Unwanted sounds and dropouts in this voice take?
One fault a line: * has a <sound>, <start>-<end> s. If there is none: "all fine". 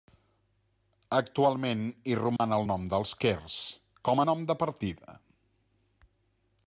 * has a dropout, 2.4-2.4 s